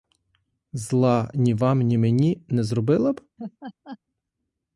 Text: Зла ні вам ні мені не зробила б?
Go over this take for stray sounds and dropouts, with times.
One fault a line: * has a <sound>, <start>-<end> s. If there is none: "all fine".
* has a laugh, 3.4-4.0 s